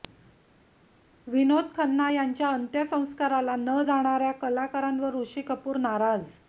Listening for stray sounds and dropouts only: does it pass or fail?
pass